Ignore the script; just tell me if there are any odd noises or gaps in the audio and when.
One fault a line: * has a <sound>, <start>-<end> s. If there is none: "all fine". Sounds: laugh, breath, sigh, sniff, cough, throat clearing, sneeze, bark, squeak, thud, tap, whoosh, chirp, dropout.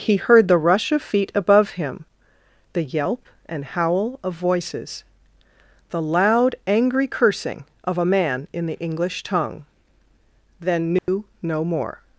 * has a dropout, 11.0-11.1 s